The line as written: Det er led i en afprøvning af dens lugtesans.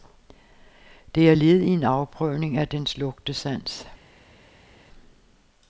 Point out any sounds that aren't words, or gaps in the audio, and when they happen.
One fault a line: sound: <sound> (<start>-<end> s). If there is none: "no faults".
no faults